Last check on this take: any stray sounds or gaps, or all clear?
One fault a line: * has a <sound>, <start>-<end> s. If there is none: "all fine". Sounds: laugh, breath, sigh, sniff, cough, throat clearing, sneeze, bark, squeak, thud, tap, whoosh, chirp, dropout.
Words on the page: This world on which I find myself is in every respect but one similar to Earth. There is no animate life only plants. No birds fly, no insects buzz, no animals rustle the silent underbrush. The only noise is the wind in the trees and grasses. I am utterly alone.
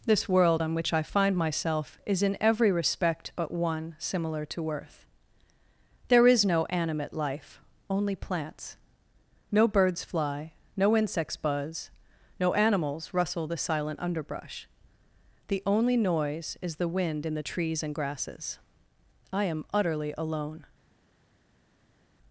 all fine